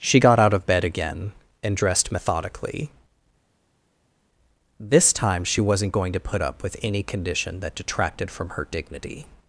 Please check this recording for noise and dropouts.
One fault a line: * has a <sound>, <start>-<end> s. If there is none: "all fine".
all fine